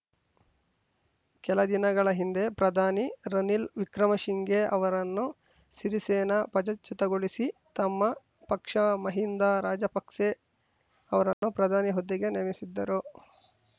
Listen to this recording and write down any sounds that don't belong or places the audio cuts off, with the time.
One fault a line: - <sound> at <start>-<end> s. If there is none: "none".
- dropout at 11.3-11.4 s